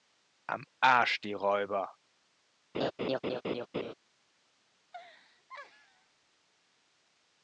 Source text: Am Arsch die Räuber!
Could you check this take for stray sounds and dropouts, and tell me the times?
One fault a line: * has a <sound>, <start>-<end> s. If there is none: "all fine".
* has a laugh, 2.7-3.9 s
* has a laugh, 4.8-6.4 s